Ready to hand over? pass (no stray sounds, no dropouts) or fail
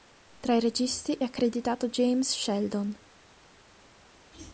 pass